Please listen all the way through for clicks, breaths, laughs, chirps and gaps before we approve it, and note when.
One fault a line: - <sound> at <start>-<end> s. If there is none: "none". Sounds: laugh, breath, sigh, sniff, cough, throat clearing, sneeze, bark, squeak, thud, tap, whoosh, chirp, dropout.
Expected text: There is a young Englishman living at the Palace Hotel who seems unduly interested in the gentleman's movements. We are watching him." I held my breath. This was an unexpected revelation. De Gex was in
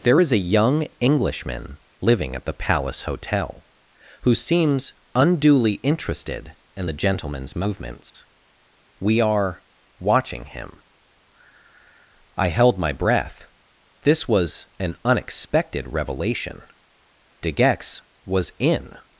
- dropout at 8.1-8.1 s